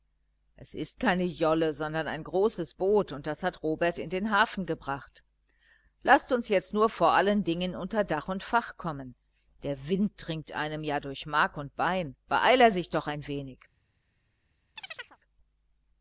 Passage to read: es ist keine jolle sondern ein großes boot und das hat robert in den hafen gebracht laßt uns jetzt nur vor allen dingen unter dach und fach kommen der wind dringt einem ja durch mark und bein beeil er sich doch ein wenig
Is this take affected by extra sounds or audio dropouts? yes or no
yes